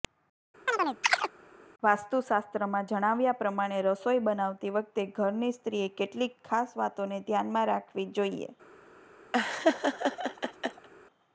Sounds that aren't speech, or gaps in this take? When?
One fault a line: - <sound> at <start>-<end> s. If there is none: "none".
- chirp at 0.7-1.3 s
- laugh at 9.3-10.9 s